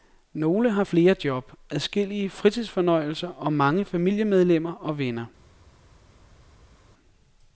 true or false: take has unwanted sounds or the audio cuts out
false